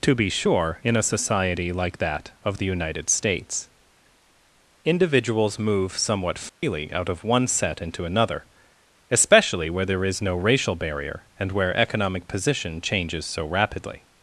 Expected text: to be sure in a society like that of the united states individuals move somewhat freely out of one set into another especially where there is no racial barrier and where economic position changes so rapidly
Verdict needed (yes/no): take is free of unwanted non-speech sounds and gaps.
no